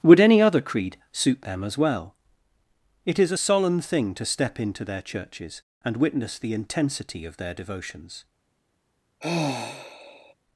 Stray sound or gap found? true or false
true